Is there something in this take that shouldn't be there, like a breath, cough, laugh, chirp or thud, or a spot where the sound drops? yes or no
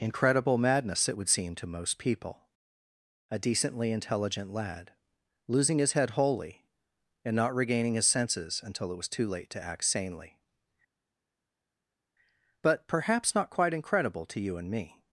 no